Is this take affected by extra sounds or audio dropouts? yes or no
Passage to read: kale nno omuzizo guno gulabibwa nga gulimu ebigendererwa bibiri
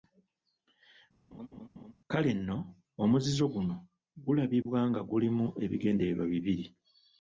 yes